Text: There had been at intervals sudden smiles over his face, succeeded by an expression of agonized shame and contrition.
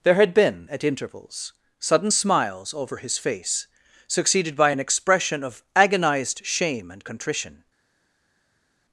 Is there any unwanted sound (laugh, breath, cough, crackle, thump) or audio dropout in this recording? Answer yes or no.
no